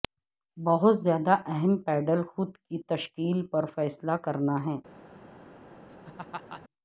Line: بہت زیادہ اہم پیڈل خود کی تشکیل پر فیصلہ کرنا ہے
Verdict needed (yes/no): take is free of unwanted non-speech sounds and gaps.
no